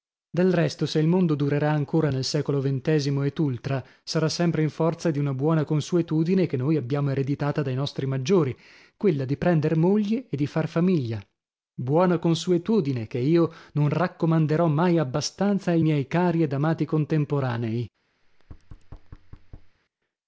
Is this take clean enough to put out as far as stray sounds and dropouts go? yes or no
no